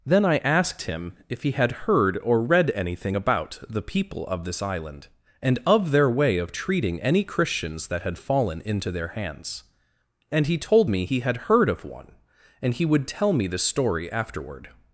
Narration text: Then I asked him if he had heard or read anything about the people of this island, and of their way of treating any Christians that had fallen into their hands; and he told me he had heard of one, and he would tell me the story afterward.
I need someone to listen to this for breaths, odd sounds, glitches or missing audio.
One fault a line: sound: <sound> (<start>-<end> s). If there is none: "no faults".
no faults